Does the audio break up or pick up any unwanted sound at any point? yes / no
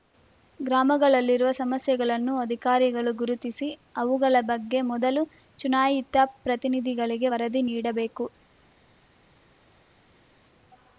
no